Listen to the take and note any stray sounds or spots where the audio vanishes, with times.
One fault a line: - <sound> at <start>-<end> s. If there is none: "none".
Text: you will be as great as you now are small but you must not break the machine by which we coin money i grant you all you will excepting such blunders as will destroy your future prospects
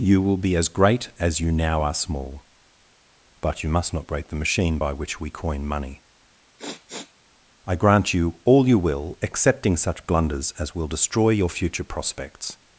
- sniff at 6.6-7.1 s